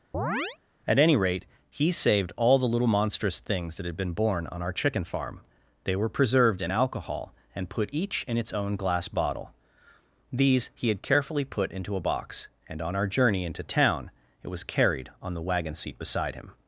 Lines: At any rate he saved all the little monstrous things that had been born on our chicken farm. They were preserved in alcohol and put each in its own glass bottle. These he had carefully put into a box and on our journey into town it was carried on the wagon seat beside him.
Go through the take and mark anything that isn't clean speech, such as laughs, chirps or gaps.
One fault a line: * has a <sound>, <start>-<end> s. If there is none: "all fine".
* has a chirp, 0.1-0.6 s